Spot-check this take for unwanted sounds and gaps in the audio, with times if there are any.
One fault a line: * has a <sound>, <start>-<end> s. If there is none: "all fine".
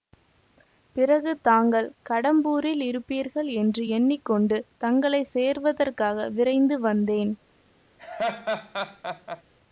* has a laugh, 8.0-9.4 s